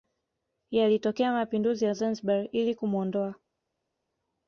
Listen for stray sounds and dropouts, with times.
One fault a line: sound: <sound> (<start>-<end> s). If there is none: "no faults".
no faults